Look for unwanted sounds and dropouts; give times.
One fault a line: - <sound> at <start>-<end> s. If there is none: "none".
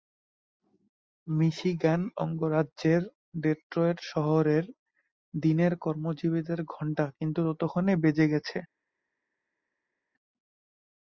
none